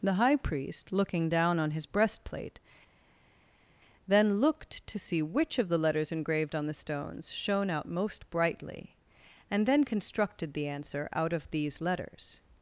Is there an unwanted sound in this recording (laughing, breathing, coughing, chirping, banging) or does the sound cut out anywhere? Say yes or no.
no